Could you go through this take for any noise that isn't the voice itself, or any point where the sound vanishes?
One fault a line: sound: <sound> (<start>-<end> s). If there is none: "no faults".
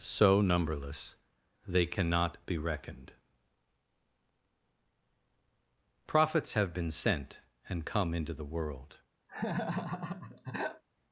sound: laugh (9.3-10.8 s)